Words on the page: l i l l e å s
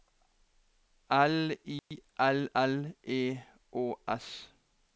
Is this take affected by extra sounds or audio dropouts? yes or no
yes